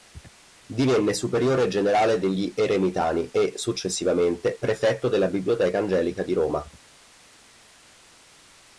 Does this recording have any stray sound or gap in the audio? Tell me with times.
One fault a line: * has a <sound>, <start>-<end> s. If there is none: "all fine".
all fine